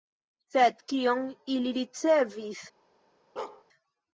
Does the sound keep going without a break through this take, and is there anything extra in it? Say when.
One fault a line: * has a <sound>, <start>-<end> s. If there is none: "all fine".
* has a bark, 3.4-3.6 s